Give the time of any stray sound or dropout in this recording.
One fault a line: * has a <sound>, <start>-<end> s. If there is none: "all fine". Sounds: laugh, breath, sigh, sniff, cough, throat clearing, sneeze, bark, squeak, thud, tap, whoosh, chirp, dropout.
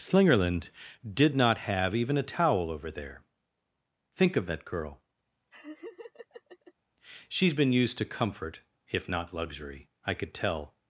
* has a laugh, 5.5-6.7 s